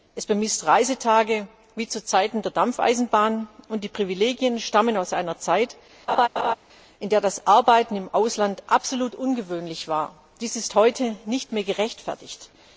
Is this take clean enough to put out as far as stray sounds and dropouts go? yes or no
no